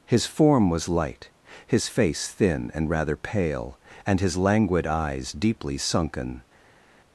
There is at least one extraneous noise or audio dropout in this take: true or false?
false